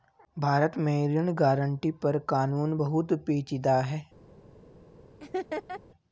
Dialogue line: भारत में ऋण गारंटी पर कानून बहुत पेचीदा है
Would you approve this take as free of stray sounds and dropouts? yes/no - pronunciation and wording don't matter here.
no